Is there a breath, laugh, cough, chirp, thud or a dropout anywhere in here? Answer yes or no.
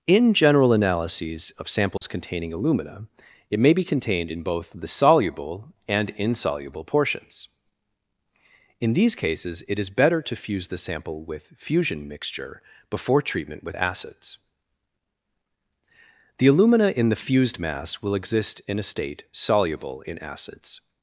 yes